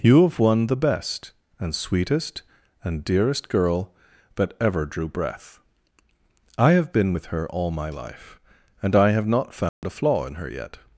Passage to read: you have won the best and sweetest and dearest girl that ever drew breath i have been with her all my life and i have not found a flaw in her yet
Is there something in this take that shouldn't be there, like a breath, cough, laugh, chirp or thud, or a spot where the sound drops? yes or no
yes